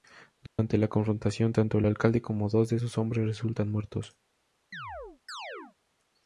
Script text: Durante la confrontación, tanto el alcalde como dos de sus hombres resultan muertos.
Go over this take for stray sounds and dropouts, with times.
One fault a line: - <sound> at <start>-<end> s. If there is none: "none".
- dropout at 0.5-0.6 s
- chirp at 4.7-5.8 s